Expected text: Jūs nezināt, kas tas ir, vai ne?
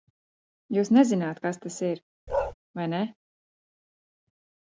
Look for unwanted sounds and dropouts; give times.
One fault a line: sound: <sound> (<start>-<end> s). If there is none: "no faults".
sound: bark (2.3-2.5 s)